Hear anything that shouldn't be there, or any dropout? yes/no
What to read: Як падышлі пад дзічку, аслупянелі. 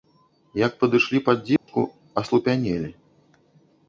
yes